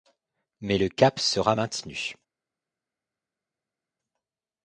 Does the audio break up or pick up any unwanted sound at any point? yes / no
no